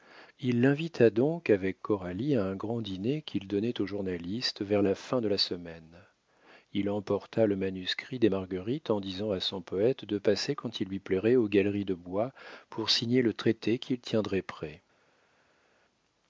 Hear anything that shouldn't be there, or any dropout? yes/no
no